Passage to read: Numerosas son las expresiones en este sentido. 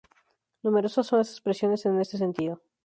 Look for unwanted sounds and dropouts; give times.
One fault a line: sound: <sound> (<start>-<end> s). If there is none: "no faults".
no faults